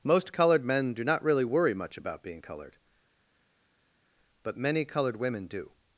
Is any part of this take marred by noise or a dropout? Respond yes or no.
no